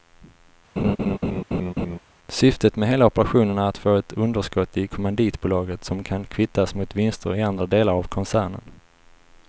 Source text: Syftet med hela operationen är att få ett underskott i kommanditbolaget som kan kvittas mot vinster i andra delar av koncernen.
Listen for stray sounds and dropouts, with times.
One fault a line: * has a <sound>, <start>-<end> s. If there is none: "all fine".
* has a laugh, 0.8-2.0 s